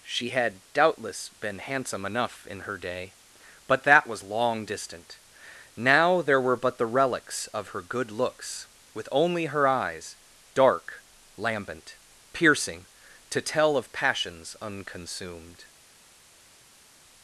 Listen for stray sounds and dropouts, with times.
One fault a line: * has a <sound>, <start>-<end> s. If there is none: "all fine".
all fine